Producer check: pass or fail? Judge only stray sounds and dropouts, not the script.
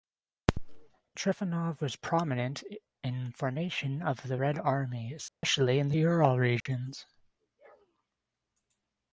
fail